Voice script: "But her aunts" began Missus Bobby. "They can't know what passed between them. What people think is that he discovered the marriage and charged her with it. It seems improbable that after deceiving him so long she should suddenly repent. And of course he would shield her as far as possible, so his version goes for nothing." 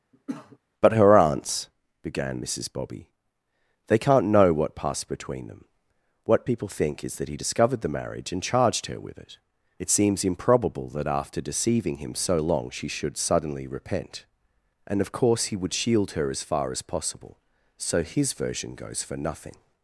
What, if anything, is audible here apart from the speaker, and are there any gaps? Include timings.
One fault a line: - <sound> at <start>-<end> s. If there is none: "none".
- cough at 0.1-0.6 s